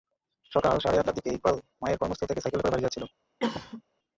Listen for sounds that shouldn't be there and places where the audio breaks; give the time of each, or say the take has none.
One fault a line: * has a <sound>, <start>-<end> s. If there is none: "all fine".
* has a cough, 3.4-3.8 s